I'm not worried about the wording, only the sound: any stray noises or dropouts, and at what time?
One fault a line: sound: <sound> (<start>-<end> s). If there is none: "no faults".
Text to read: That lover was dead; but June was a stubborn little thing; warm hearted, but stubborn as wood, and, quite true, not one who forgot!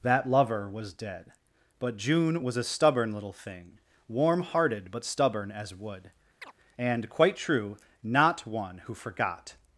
sound: chirp (6.4-6.5 s)